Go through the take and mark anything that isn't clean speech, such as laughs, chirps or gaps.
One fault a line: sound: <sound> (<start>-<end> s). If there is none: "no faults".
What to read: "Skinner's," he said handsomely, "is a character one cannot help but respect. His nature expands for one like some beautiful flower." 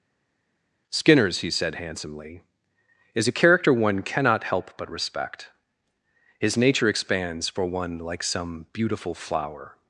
no faults